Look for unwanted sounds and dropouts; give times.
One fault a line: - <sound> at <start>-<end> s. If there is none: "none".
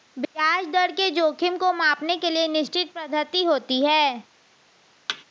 - thud at 5.1-5.2 s